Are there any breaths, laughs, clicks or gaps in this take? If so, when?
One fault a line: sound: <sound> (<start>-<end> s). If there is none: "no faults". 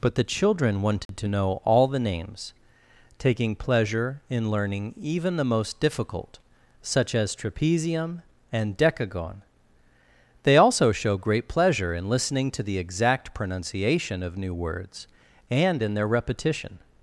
sound: dropout (1.1-1.1 s)